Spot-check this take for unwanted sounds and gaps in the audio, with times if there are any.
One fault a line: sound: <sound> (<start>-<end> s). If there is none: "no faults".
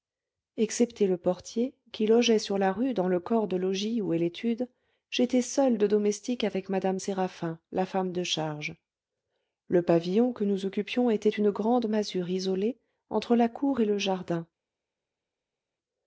no faults